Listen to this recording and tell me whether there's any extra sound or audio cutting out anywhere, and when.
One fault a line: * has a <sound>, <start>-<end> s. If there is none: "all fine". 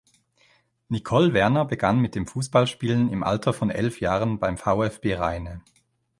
all fine